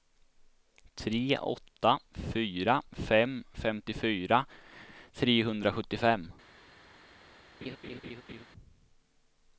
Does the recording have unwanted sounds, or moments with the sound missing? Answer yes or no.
yes